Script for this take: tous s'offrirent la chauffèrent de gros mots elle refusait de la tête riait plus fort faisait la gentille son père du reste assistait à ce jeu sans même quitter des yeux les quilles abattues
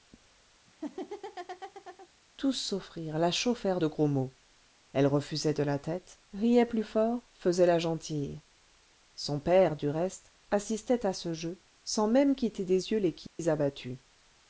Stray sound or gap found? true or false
true